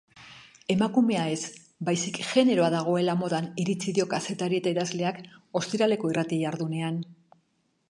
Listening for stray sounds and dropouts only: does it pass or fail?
pass